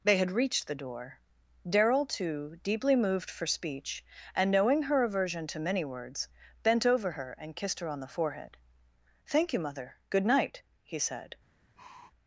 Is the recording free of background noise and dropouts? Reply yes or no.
no